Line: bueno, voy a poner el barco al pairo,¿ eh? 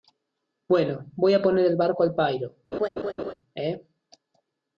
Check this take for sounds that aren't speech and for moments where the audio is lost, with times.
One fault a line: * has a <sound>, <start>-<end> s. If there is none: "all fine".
* has a laugh, 2.7-3.3 s